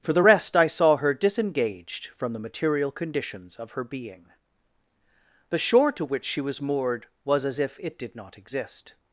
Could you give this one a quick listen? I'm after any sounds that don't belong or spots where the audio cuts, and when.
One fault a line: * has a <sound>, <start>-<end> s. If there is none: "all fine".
all fine